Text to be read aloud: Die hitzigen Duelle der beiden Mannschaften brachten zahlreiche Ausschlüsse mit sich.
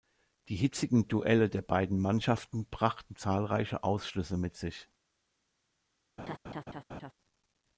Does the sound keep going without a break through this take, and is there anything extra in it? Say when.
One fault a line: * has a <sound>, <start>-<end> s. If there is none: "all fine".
* has a laugh, 6.2-7.1 s